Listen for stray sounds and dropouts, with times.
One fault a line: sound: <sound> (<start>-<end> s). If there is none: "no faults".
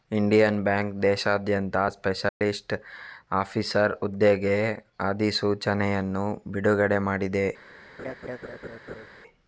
sound: dropout (2.3-2.4 s)
sound: laugh (8.0-9.1 s)